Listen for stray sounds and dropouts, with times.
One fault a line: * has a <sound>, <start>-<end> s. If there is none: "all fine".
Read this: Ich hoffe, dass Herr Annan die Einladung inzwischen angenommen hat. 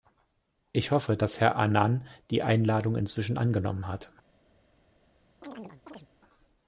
* has a chirp, 5.4-6.1 s